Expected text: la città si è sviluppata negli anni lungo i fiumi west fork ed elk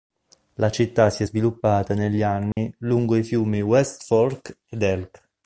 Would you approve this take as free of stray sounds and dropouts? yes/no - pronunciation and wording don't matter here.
no